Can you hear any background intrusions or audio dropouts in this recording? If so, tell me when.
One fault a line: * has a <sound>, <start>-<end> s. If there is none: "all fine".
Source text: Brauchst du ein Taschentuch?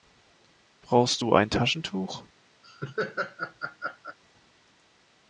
* has a laugh, 2.6-4.2 s